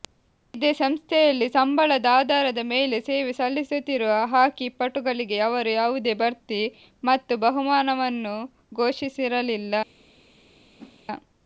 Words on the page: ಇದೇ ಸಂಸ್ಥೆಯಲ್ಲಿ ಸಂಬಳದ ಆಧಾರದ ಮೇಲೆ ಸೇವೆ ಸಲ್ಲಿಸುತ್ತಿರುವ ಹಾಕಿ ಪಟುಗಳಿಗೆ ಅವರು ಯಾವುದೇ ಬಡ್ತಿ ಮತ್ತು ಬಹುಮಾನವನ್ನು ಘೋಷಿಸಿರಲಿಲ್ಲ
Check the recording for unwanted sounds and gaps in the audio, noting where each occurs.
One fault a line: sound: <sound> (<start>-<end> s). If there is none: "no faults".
sound: whoosh (10.8-11.0 s)